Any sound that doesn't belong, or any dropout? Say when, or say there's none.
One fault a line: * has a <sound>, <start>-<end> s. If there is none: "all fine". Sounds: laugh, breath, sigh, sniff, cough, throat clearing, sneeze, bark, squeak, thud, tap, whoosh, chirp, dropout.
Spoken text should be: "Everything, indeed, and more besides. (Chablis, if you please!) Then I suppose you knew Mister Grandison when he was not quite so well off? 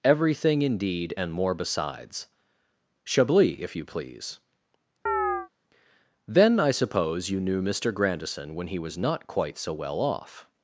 * has a chirp, 5.1-5.5 s